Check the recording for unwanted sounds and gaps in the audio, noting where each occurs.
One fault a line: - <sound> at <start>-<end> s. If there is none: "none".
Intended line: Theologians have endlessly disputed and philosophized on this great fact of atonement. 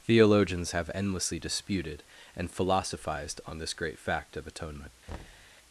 - thud at 5.1-5.6 s